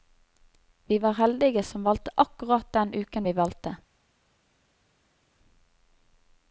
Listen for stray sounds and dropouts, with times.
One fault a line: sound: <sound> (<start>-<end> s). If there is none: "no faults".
no faults